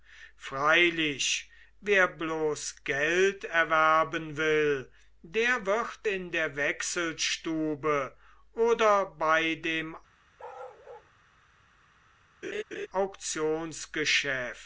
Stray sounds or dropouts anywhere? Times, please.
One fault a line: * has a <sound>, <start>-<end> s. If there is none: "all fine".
* has a bark, 10.4-11.1 s
* has a laugh, 12.4-12.9 s